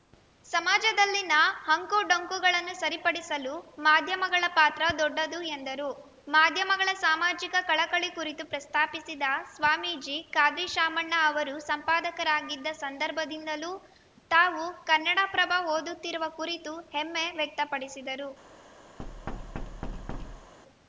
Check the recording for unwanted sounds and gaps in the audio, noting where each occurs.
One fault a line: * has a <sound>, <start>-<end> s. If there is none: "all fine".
* has a thud, 19.0-20.5 s